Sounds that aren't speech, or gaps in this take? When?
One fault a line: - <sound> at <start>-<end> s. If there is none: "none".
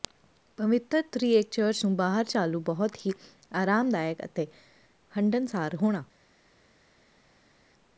none